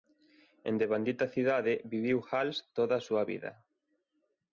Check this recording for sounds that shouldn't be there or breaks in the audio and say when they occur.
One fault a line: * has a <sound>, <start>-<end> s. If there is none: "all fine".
all fine